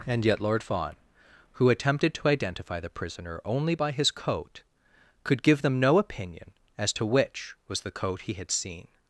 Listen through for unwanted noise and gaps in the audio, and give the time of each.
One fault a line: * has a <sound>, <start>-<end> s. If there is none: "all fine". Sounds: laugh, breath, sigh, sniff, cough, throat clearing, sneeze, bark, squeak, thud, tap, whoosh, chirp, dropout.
all fine